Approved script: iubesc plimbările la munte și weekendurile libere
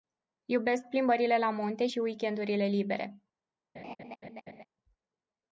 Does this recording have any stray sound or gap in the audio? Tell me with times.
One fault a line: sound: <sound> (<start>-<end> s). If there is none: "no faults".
sound: laugh (3.8-4.6 s)